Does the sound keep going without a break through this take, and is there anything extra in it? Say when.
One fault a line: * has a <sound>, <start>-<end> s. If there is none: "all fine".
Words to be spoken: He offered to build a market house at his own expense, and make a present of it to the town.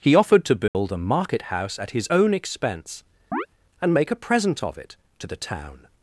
* has a dropout, 0.7-0.7 s
* has a chirp, 3.3-3.5 s